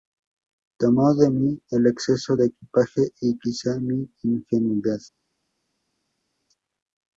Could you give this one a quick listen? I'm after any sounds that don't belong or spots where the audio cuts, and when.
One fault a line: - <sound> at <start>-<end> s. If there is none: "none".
none